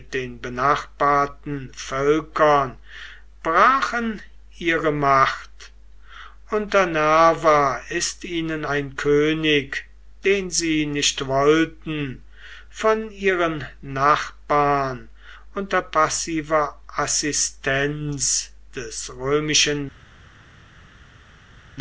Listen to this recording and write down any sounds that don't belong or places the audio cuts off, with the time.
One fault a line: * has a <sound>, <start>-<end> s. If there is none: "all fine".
all fine